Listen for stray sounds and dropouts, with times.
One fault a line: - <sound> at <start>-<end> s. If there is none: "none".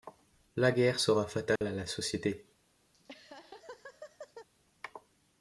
- dropout at 1.6-1.6 s
- laugh at 2.9-4.5 s